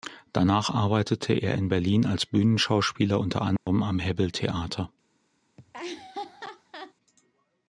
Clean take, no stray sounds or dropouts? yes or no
no